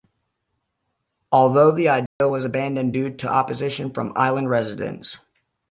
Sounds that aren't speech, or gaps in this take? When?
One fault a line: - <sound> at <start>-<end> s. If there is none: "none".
- dropout at 2.1-2.2 s